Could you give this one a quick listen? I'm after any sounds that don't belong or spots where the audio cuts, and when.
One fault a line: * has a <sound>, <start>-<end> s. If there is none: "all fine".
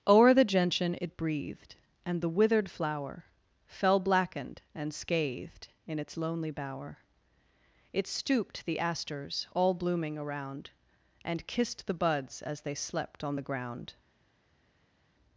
all fine